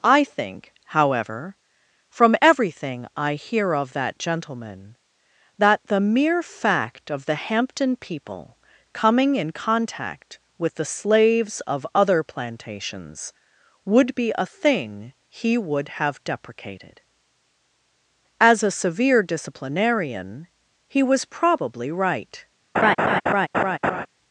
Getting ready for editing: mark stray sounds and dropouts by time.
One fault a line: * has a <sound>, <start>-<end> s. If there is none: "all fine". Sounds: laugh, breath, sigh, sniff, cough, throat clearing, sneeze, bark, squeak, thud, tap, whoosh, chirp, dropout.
* has a laugh, 22.7-24.1 s